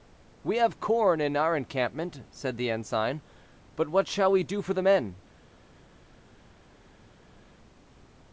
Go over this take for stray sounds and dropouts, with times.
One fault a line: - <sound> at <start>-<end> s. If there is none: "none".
none